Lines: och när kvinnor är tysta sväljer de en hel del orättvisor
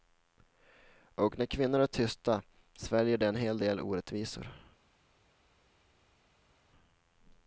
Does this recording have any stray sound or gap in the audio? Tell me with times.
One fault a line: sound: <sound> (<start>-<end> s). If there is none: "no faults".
no faults